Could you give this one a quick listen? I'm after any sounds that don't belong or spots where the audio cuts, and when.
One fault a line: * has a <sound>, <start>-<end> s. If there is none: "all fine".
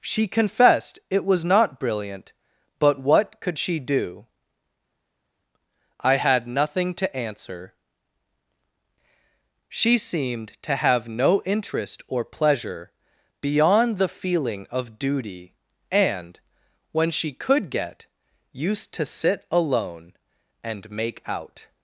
all fine